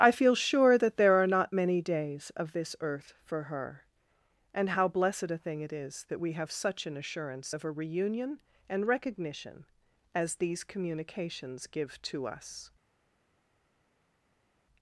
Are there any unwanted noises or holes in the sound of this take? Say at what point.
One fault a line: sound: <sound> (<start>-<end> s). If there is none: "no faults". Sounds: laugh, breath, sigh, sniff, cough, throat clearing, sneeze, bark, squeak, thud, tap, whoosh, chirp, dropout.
no faults